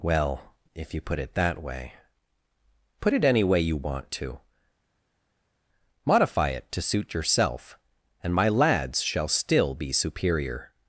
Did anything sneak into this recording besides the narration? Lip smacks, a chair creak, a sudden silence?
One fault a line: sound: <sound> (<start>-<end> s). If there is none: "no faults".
no faults